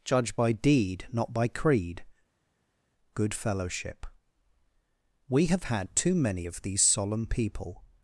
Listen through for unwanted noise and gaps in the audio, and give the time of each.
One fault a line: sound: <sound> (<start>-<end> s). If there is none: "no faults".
no faults